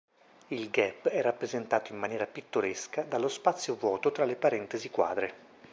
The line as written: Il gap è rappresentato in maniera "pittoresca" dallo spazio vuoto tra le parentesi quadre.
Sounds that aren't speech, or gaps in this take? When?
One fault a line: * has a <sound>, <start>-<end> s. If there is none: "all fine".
all fine